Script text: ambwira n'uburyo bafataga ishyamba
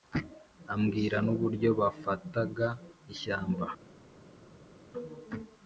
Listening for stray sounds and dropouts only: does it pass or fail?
pass